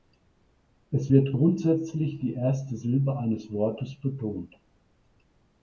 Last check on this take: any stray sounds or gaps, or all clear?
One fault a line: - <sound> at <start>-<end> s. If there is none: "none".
none